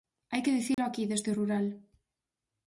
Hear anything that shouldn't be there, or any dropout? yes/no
yes